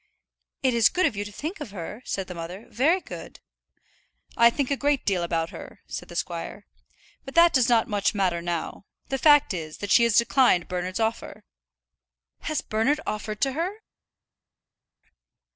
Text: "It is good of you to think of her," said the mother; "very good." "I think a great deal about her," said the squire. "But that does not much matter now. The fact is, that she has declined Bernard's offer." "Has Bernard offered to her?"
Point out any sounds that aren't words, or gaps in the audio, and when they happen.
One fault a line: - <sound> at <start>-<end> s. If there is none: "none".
none